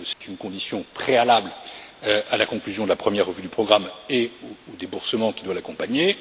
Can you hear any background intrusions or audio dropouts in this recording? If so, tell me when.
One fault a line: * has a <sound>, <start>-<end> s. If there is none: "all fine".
* has a dropout, 0.1-0.2 s